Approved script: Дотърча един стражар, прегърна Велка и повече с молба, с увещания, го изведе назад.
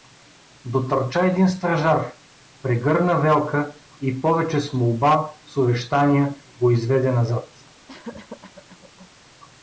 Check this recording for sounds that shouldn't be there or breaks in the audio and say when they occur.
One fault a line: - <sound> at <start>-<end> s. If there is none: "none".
- cough at 7.9-9.1 s